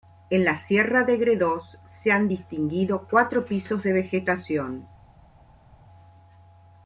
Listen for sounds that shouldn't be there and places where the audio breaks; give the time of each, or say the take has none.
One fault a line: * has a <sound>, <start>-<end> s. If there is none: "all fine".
all fine